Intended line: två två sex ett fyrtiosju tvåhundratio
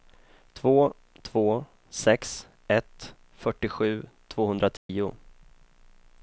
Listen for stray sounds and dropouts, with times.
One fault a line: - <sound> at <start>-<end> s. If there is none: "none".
- dropout at 4.8-4.9 s